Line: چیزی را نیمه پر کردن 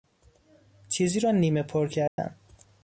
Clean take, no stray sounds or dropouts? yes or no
no